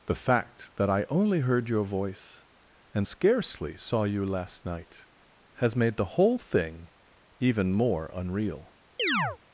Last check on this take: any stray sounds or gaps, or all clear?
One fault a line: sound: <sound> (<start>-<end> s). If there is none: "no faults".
sound: chirp (9.0-9.4 s)